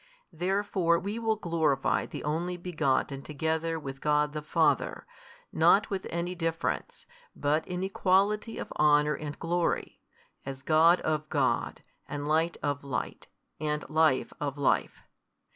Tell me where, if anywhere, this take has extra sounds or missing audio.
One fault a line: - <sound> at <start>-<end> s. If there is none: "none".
none